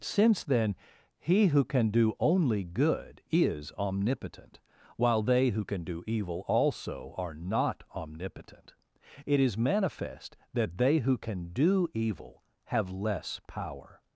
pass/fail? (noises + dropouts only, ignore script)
pass